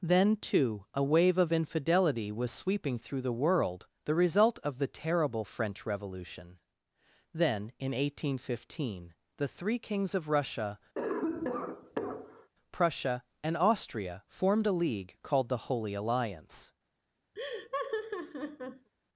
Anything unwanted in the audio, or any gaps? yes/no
yes